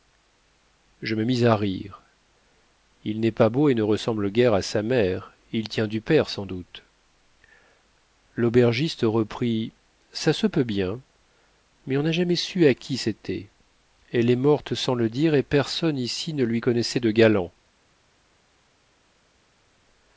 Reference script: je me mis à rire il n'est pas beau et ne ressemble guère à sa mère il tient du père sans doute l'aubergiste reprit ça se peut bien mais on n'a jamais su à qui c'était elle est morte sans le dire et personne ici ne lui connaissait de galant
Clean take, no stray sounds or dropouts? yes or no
yes